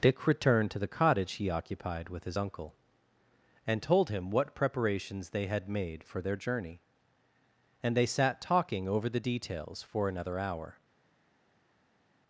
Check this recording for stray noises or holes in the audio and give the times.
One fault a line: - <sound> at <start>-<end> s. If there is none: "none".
none